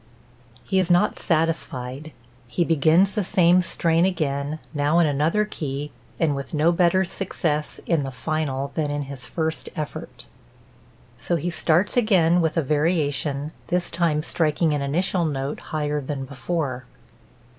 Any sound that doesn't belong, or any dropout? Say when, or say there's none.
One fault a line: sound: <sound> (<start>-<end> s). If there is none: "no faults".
no faults